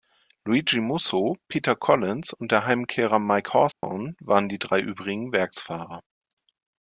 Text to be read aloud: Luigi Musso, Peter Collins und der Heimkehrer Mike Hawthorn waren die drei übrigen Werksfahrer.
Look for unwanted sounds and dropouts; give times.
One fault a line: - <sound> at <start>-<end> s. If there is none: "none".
- dropout at 3.7-3.8 s